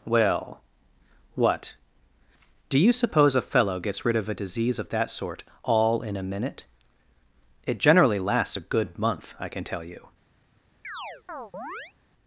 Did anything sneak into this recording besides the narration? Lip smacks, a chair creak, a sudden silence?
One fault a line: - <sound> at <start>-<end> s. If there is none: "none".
- chirp at 10.8-11.9 s